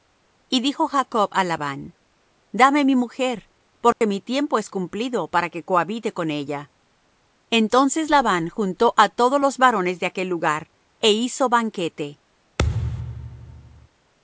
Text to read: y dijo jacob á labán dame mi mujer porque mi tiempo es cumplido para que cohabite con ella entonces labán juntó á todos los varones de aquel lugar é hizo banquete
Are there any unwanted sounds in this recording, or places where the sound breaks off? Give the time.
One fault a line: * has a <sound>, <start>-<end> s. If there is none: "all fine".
* has a dropout, 3.9-4.0 s
* has a thud, 12.6-13.9 s